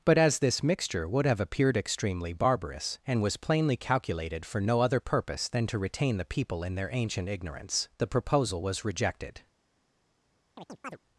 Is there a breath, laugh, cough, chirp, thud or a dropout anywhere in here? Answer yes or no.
yes